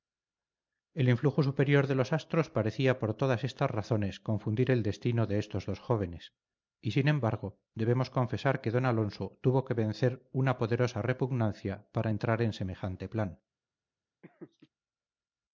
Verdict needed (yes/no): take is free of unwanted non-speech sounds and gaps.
no